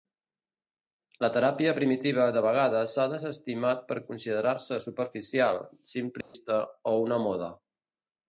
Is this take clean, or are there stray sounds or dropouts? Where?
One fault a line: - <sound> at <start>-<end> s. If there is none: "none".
- dropout at 6.2-6.3 s